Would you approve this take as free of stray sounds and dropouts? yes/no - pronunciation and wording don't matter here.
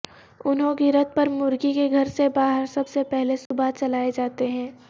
no